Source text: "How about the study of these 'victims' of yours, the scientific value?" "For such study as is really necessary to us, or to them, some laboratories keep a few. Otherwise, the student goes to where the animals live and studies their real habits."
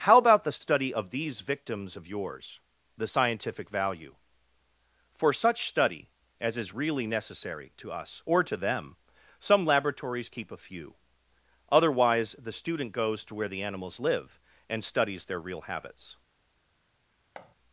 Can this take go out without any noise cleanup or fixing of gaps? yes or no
no